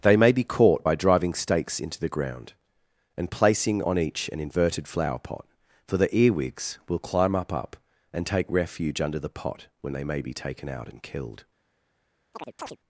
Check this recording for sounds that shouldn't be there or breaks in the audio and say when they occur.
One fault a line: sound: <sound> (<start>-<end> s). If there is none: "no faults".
sound: chirp (12.3-12.8 s)